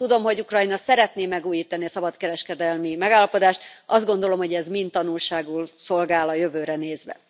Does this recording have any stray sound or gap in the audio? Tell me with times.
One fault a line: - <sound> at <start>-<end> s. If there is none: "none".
none